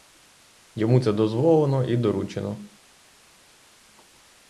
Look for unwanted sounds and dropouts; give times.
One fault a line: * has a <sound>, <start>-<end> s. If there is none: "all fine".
all fine